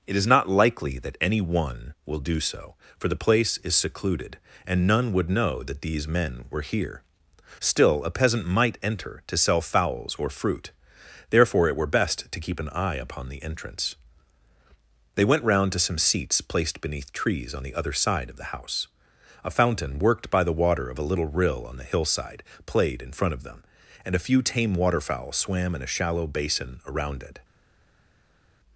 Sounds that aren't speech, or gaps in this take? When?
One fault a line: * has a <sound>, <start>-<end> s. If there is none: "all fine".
all fine